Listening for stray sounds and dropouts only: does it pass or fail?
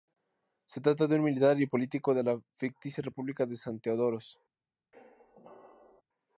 fail